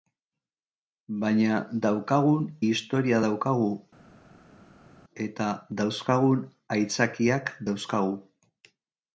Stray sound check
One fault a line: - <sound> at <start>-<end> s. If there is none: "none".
none